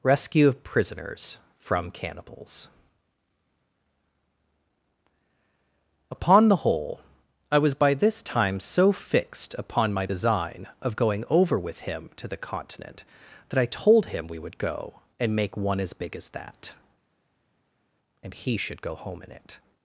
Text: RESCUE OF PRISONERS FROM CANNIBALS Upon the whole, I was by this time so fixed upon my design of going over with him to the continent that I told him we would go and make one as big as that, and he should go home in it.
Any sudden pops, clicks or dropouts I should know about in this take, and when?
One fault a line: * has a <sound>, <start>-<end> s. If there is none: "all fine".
all fine